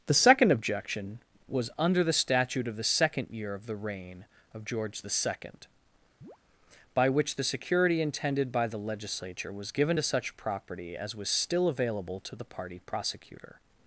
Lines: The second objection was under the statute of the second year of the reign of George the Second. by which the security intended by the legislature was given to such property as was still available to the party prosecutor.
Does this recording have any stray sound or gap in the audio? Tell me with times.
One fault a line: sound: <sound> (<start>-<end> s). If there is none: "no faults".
sound: chirp (6.2-6.4 s)